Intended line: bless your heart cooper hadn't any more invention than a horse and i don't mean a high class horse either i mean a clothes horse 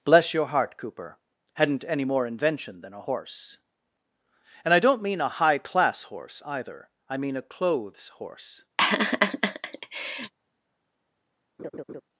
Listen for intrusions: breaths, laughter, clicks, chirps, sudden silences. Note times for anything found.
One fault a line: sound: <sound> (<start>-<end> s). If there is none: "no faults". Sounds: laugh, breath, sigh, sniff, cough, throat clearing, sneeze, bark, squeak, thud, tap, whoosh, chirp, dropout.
sound: laugh (8.8-10.3 s)
sound: laugh (11.6-12.0 s)